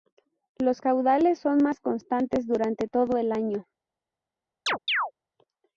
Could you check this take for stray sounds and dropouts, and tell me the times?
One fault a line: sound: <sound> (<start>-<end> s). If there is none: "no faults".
sound: chirp (4.7-5.1 s)